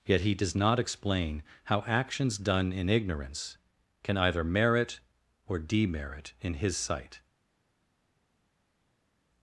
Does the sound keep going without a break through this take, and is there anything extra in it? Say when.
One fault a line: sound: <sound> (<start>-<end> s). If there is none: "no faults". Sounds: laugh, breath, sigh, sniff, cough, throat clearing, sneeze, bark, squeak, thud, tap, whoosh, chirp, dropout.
no faults